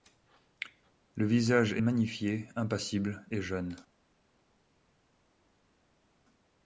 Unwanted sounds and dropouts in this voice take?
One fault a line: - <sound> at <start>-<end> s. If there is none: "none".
none